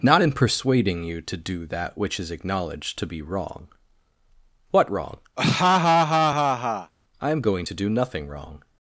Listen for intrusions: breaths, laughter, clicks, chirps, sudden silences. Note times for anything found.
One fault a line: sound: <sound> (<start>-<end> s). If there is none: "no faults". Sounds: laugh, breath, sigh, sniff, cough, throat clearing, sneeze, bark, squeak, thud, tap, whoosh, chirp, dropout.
sound: laugh (5.4-6.9 s)